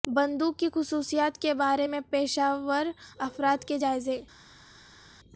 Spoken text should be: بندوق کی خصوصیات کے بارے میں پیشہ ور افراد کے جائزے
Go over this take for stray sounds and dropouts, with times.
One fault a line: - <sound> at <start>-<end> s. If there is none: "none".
none